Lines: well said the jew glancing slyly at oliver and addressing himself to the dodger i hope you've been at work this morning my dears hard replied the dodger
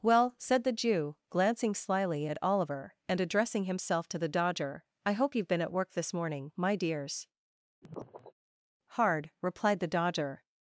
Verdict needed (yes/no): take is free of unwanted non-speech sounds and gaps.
no